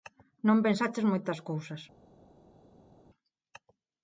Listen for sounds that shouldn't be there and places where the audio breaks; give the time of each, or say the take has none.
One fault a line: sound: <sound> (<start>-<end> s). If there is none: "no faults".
no faults